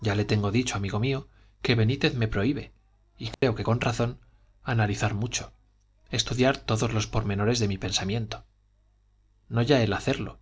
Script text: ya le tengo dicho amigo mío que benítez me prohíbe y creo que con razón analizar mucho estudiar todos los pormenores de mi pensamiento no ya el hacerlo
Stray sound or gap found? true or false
true